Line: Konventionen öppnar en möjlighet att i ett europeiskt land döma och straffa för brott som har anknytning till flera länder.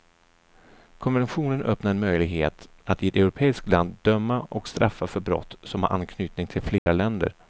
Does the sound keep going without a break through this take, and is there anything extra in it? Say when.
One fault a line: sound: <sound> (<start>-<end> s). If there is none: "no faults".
sound: dropout (6.8-6.9 s)